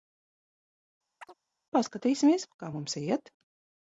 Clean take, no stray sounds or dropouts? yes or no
no